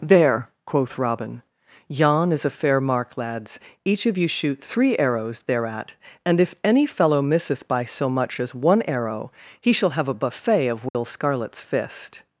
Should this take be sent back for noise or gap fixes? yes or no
yes